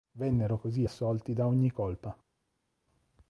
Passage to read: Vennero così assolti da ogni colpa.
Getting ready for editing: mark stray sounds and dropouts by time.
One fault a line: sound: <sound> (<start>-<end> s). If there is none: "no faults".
no faults